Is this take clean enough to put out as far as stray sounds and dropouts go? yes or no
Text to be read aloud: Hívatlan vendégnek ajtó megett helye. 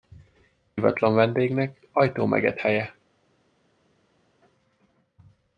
yes